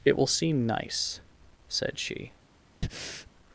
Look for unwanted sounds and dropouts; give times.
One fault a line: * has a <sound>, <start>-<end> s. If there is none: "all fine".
* has a breath, 2.8-3.3 s